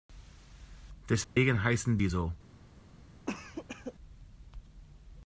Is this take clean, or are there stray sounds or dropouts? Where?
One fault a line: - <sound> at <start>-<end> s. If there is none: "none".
- dropout at 1.2-1.4 s
- cough at 3.3-3.9 s